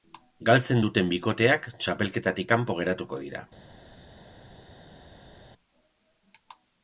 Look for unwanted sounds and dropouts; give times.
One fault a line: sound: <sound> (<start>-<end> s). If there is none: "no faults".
no faults